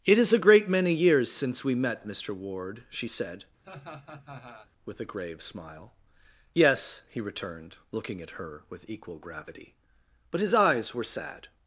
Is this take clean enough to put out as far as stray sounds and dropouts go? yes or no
no